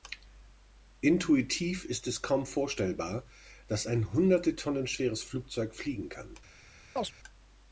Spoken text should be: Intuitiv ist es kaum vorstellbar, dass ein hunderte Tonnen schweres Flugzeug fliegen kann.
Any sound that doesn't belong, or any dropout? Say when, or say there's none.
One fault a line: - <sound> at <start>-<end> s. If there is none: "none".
- chirp at 7.0-7.1 s